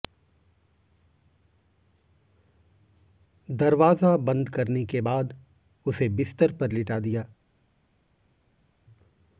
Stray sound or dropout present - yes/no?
no